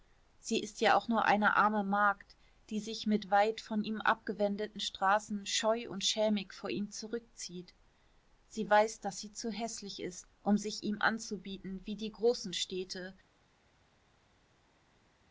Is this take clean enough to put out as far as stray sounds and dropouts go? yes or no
yes